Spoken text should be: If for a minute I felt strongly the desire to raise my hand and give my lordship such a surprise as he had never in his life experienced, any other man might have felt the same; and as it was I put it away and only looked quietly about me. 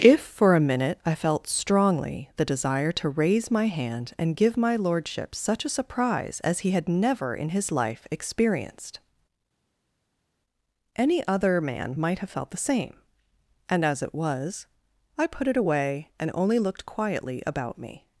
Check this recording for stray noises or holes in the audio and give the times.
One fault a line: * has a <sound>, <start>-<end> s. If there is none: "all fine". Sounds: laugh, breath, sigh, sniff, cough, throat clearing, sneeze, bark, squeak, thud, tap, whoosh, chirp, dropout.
all fine